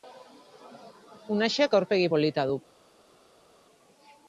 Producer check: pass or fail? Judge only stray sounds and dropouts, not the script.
pass